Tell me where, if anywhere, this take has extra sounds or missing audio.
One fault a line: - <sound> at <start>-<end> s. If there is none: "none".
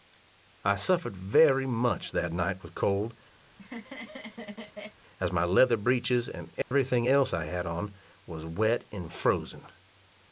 - laugh at 3.4-5.0 s
- dropout at 6.6-6.7 s